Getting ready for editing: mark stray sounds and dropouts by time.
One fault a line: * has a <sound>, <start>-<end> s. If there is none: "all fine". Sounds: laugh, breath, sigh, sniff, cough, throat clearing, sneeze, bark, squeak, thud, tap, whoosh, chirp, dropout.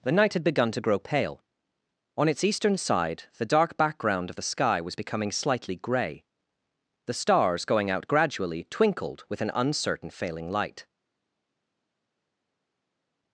all fine